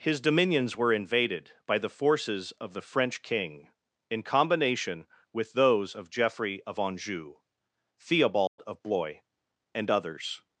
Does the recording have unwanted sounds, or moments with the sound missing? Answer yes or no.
yes